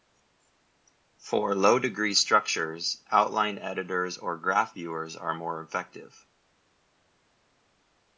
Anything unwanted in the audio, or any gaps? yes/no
no